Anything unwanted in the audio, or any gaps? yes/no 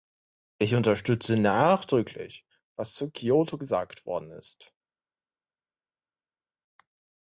no